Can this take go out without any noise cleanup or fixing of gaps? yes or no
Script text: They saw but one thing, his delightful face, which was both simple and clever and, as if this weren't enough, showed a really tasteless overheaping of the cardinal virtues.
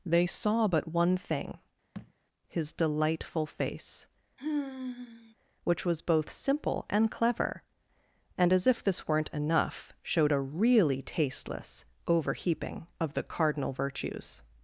no